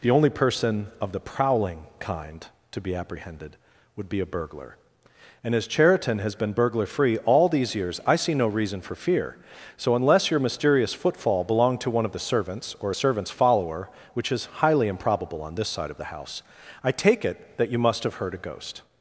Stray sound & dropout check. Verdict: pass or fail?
pass